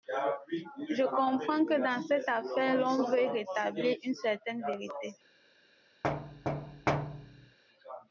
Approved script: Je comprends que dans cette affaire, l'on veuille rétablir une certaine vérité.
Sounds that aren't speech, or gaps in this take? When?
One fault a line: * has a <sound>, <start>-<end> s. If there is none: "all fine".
* has a thud, 6.0-7.6 s